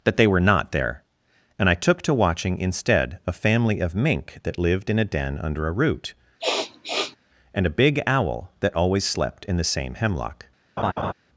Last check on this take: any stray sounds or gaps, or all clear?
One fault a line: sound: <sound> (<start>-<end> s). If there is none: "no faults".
sound: sniff (6.4-7.2 s)
sound: laugh (10.8-11.1 s)